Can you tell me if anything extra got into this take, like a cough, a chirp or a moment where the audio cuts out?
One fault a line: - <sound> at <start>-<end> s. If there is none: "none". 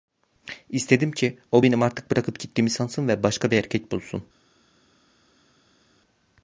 none